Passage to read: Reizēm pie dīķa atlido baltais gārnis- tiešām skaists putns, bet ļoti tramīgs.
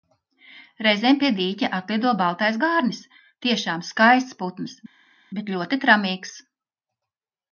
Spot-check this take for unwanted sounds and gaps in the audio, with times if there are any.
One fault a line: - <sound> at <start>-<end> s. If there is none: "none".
none